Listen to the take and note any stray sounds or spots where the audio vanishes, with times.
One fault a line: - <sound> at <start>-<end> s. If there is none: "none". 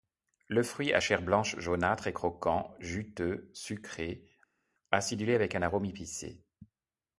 none